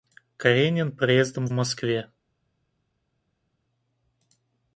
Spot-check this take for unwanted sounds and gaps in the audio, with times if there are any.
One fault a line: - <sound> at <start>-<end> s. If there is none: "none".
none